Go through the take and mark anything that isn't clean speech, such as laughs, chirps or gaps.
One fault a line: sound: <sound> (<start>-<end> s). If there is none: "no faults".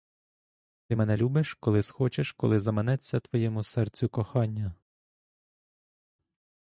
no faults